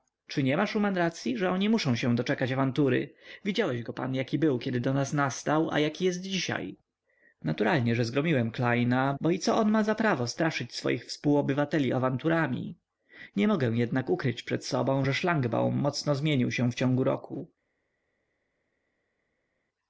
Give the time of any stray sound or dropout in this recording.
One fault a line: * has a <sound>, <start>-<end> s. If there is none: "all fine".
all fine